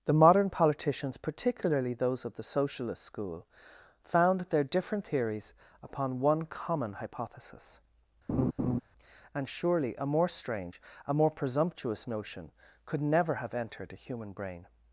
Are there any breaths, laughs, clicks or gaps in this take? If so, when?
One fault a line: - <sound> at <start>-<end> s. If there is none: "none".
- laugh at 8.3-8.8 s